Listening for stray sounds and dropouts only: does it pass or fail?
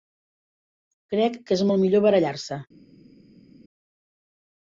pass